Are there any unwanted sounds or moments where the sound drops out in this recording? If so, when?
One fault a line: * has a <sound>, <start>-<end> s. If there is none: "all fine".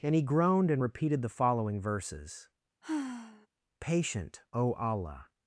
* has a sigh, 2.8-3.5 s